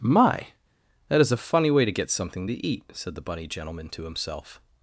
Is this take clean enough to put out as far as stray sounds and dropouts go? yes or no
yes